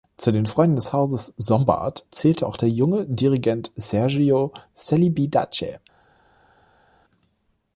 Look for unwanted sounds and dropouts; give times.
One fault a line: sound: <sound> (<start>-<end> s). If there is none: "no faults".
no faults